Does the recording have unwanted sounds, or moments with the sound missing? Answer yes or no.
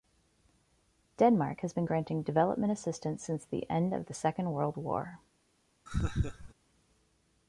yes